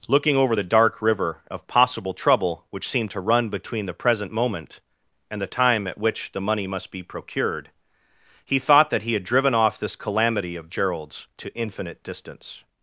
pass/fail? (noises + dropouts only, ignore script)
pass